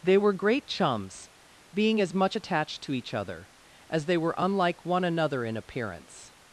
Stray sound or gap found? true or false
false